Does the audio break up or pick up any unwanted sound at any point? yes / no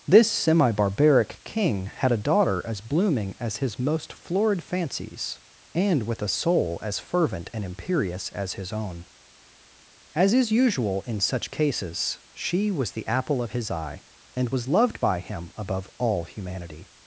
no